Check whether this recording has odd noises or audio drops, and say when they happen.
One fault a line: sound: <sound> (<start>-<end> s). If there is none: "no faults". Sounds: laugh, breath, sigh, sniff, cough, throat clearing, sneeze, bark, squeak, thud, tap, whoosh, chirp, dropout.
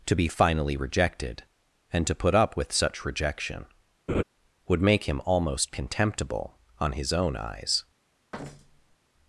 sound: laugh (4.1-4.2 s)
sound: thud (8.3-9.0 s)